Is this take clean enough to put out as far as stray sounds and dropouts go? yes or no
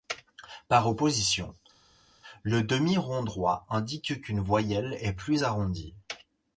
yes